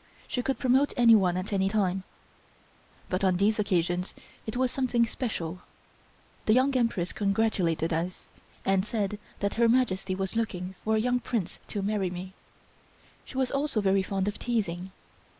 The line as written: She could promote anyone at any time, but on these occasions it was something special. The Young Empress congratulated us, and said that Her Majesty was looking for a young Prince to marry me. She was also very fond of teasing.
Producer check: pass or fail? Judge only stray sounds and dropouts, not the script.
pass